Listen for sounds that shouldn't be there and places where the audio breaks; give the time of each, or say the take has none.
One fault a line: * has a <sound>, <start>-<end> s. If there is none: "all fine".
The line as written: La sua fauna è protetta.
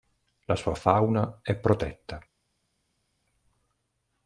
all fine